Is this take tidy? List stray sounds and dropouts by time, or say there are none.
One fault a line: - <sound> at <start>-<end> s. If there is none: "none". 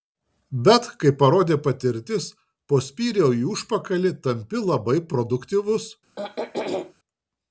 - throat clearing at 6.2-6.9 s